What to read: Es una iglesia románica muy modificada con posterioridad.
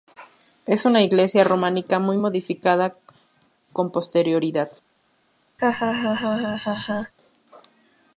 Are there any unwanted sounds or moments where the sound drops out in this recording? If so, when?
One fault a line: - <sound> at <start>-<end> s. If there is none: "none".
- laugh at 5.6-7.1 s